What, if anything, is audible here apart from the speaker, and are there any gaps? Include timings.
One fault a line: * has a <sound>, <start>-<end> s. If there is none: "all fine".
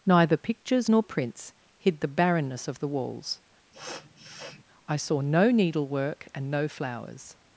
* has a sniff, 3.7-4.6 s